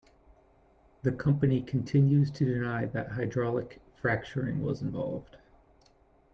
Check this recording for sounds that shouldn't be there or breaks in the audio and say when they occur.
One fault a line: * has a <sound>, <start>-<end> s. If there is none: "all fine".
all fine